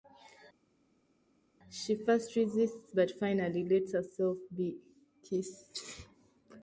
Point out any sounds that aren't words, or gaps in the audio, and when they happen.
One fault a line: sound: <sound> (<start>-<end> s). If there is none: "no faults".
no faults